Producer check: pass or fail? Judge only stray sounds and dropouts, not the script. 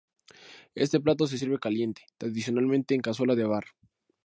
pass